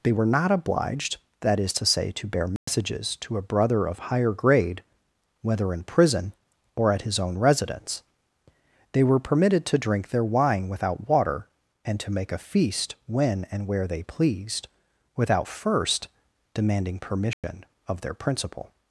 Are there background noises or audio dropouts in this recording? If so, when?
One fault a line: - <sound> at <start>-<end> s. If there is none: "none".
- dropout at 2.6-2.7 s
- dropout at 17.3-17.4 s